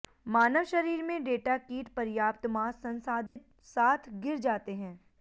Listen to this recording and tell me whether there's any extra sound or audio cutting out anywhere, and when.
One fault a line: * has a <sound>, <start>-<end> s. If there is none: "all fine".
* has a dropout, 3.3-3.4 s